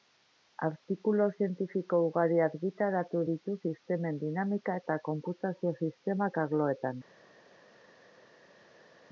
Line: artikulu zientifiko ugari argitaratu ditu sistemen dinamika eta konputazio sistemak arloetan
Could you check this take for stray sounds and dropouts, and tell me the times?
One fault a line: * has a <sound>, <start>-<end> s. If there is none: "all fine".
all fine